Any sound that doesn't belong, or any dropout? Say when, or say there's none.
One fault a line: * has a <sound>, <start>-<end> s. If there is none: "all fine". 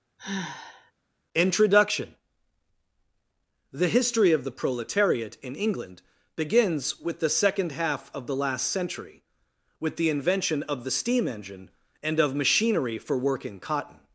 * has a sigh, 0.2-0.9 s